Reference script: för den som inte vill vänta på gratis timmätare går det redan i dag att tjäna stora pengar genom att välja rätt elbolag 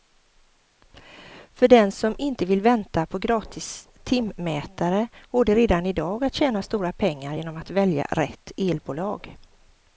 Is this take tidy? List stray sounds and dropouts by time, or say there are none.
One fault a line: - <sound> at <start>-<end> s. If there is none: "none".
none